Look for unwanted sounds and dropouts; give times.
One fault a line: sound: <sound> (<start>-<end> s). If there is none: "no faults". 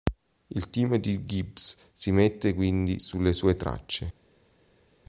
no faults